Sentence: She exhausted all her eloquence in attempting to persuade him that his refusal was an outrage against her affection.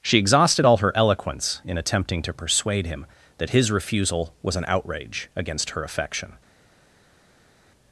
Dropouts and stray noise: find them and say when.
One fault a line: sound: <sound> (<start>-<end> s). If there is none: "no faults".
no faults